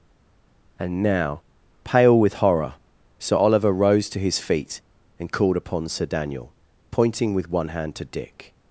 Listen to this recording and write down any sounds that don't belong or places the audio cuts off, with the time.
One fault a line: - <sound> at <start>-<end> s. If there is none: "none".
none